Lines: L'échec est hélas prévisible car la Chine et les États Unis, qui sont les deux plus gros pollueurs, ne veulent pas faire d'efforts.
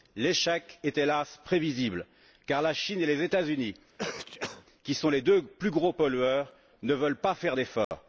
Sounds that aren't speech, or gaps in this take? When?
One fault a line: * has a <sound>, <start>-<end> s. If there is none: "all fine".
* has a sneeze, 4.0-4.7 s
* has a dropout, 7.8-7.9 s